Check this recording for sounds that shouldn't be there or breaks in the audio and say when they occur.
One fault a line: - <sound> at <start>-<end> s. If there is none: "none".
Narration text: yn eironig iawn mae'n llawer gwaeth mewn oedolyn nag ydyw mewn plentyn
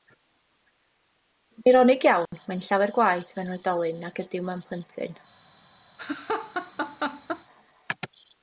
- dropout at 2.3-2.3 s
- laugh at 6.0-7.4 s